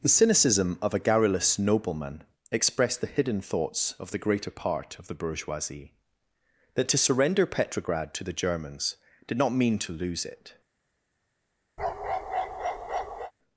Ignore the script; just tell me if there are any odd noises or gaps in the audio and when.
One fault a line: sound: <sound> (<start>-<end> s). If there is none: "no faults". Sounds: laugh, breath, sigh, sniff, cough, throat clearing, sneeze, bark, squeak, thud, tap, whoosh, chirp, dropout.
sound: bark (11.8-13.3 s)